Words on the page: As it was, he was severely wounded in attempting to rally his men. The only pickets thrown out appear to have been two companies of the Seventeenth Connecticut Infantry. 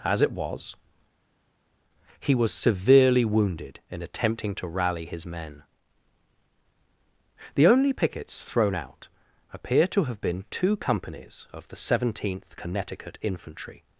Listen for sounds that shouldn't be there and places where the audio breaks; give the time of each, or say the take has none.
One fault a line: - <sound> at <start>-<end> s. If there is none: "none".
none